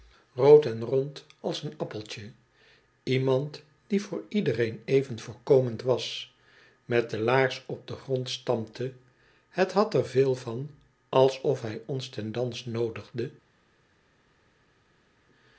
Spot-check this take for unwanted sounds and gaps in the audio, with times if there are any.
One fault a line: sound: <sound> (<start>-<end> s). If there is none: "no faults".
no faults